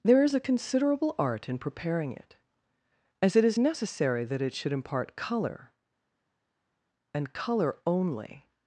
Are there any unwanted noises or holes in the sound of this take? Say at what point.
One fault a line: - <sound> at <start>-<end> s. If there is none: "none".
none